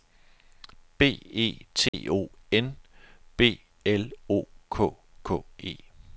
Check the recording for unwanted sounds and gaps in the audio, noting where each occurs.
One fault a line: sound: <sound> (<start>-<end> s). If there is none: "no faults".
sound: dropout (1.9-1.9 s)